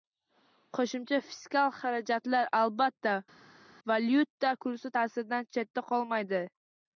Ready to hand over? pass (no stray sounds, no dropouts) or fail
pass